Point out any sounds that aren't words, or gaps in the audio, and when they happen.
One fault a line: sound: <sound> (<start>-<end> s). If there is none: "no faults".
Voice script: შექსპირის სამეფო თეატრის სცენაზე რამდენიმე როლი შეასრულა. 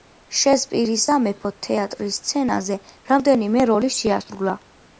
no faults